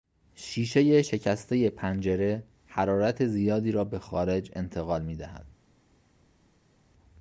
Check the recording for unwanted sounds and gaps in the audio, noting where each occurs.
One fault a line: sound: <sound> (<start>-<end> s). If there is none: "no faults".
no faults